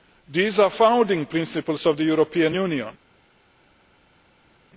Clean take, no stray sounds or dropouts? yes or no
yes